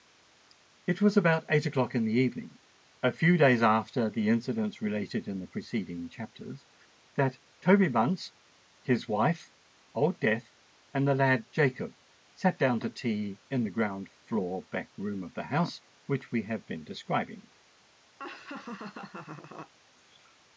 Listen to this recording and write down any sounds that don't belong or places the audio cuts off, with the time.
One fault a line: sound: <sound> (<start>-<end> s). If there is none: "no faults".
sound: laugh (18.2-19.7 s)